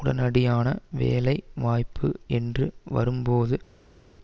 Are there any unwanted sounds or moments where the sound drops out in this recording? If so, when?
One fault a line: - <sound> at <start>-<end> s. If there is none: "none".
none